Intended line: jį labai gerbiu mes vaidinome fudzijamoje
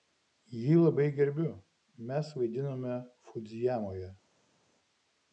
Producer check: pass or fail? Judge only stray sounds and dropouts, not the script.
pass